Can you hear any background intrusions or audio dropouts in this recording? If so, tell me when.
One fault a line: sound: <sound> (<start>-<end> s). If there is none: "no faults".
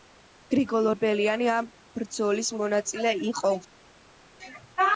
no faults